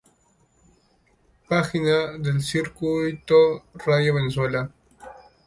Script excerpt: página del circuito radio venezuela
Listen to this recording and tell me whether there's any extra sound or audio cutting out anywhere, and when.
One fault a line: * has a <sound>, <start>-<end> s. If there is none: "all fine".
all fine